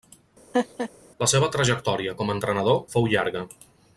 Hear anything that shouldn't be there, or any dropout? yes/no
yes